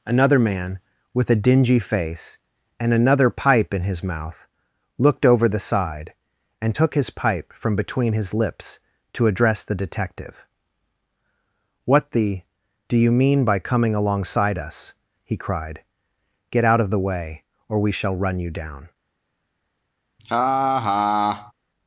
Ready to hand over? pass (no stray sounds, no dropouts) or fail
fail